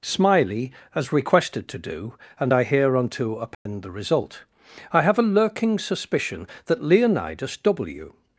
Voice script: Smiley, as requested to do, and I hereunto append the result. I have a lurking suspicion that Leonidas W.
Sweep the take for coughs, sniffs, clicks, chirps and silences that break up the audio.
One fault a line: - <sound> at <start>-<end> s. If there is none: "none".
- dropout at 3.5-3.7 s